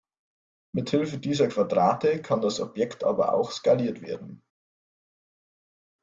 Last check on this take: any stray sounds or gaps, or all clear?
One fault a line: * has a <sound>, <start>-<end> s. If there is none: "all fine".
all fine